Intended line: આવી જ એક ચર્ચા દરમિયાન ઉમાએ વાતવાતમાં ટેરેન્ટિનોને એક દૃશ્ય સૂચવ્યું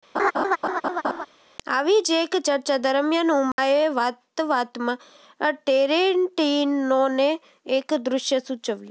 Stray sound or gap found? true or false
true